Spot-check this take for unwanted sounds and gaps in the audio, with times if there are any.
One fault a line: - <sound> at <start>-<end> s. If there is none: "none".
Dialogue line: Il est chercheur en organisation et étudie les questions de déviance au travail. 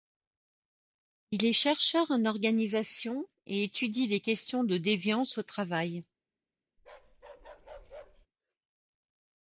- bark at 6.8-8.3 s